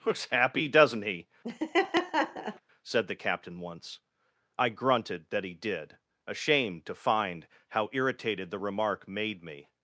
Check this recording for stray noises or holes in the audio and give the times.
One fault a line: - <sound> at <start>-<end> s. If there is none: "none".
- laugh at 1.4-2.6 s